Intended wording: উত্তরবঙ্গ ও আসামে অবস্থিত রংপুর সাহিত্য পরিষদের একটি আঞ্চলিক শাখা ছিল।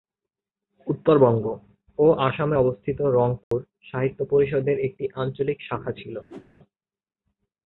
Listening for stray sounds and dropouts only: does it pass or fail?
fail